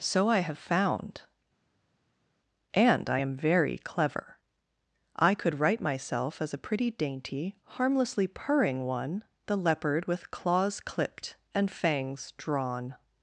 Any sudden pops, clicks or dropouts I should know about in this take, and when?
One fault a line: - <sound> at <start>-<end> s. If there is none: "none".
none